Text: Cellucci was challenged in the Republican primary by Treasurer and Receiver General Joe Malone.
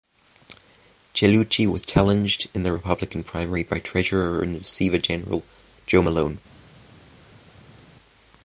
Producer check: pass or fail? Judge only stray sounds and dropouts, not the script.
pass